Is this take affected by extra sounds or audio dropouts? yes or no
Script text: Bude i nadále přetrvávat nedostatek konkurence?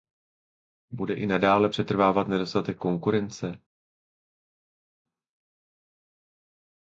no